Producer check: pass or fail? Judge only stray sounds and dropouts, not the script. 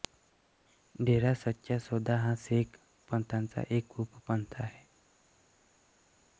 pass